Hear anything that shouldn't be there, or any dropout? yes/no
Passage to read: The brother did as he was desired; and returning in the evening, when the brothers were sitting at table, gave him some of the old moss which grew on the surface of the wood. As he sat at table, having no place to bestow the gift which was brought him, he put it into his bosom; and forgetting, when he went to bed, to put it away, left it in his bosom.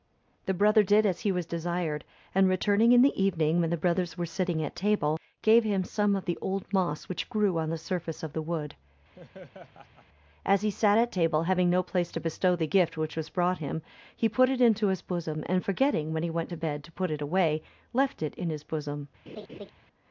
yes